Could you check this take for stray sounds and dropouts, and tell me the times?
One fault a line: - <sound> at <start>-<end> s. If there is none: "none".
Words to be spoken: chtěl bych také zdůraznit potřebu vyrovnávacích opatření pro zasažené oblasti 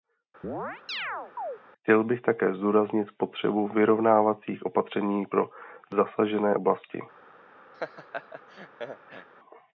- chirp at 0.4-1.6 s
- laugh at 7.7-9.3 s